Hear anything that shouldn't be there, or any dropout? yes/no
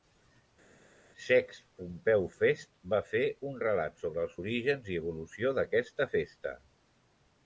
no